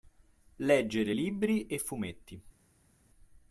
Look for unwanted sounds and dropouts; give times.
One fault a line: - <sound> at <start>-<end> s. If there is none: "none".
none